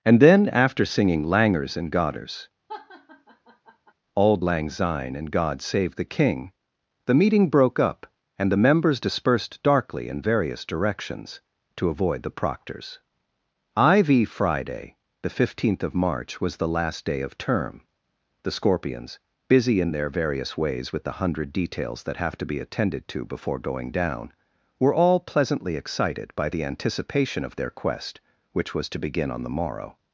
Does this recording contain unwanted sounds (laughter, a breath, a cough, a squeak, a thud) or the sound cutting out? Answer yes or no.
yes